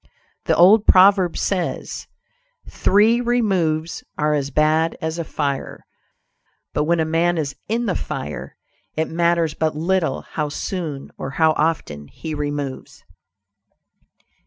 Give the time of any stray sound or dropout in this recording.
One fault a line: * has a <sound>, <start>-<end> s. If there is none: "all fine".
all fine